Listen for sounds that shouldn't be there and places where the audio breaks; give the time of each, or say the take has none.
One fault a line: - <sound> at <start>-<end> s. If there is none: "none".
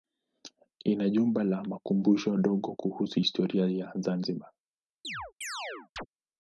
- chirp at 5.0-6.1 s